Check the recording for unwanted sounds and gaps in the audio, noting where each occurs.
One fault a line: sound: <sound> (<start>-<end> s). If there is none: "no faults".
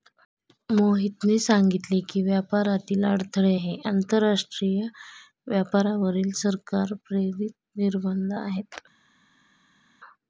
no faults